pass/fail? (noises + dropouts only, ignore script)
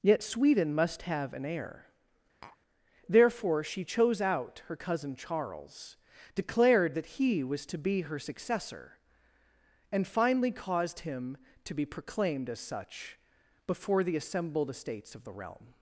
fail